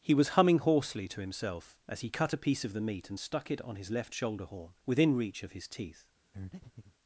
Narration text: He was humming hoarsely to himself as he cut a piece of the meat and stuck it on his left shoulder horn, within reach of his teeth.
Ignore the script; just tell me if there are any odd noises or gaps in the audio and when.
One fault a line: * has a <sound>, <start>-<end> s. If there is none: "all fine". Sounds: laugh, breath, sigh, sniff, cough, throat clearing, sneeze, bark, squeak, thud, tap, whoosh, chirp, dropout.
* has a breath, 6.3-6.9 s